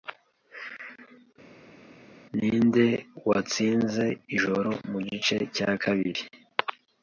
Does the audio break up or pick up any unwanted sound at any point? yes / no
no